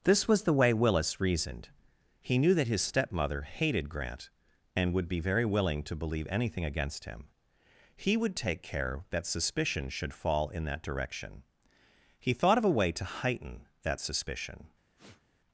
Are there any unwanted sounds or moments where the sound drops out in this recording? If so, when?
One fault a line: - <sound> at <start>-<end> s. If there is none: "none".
- sniff at 15.0-15.2 s